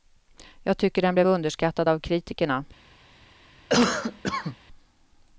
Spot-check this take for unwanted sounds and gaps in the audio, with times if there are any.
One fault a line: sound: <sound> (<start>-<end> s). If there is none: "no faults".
sound: cough (3.7-4.6 s)